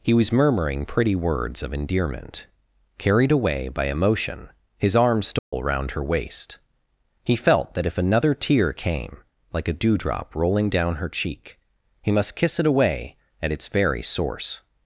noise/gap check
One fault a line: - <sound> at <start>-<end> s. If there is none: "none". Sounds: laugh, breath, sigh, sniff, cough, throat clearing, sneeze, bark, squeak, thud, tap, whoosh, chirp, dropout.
- dropout at 5.4-5.5 s